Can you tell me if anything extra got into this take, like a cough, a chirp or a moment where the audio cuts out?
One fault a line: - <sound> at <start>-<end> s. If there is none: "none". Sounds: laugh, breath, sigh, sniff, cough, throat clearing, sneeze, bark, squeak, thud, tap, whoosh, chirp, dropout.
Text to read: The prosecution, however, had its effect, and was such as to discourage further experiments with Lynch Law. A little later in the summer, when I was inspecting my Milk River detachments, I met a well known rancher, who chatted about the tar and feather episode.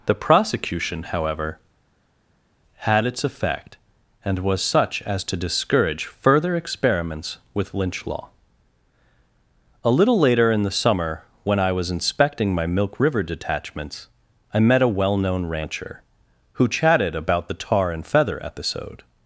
none